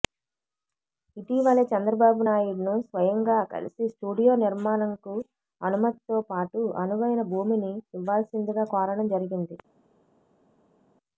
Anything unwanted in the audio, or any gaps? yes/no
no